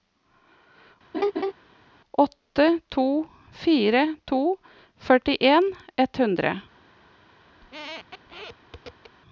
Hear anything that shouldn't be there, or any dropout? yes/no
yes